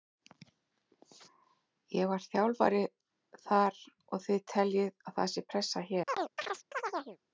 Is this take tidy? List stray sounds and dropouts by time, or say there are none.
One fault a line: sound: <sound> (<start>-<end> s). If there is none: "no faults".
sound: chirp (6.1-7.2 s)